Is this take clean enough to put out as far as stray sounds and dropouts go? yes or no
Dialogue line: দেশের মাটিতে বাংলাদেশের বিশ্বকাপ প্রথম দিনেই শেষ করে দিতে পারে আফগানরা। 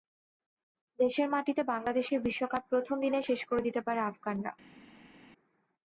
yes